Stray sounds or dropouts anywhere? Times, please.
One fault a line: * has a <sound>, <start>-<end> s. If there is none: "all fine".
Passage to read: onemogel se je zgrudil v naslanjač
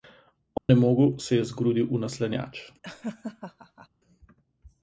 * has a dropout, 0.6-0.7 s
* has a laugh, 2.8-3.9 s